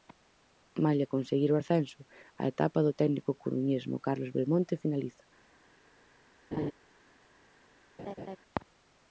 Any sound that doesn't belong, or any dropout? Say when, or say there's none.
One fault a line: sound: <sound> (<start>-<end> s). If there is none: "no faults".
sound: laugh (6.5-6.7 s)
sound: laugh (8.0-8.4 s)